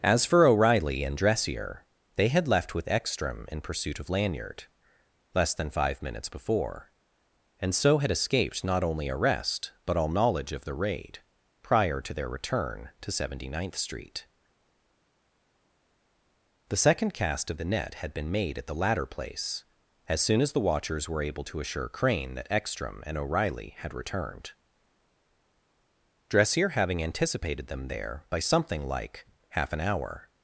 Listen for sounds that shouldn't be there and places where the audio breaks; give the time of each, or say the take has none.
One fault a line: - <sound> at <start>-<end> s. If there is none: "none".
none